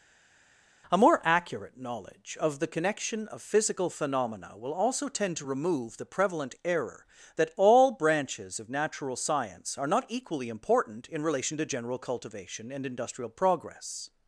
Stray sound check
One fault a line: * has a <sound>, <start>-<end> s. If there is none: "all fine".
all fine